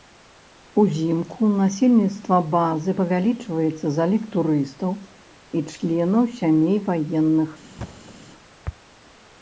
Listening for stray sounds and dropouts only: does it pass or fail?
fail